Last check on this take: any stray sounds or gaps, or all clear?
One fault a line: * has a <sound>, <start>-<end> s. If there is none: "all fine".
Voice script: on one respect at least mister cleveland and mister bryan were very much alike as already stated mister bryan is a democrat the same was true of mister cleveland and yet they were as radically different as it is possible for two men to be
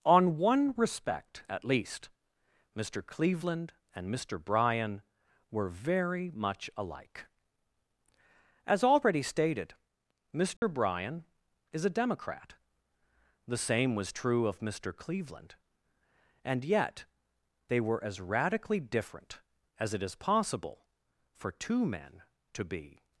* has a dropout, 10.6-10.6 s